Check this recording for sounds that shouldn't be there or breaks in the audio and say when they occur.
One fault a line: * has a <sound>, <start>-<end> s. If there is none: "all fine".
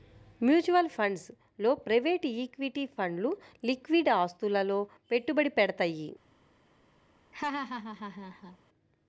* has a laugh, 7.3-8.6 s